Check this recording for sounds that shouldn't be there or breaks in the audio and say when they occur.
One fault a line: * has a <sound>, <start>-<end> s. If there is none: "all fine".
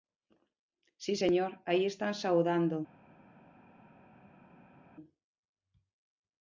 all fine